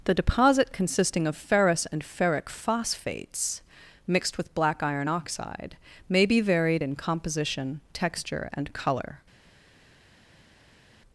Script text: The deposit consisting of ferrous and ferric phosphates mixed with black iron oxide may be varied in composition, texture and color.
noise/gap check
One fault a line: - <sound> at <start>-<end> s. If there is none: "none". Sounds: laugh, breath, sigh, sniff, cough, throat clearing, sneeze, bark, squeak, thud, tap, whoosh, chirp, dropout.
none